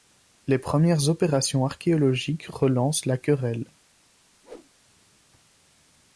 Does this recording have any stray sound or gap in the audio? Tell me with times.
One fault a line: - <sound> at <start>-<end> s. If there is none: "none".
- whoosh at 4.4-4.7 s